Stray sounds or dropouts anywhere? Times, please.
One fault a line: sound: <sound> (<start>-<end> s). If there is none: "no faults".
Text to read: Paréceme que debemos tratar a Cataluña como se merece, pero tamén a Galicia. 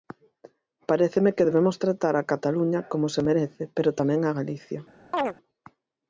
sound: chirp (5.1-5.3 s)